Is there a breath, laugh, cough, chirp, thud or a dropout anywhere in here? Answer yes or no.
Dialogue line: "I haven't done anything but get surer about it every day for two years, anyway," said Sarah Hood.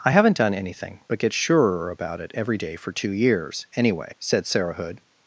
no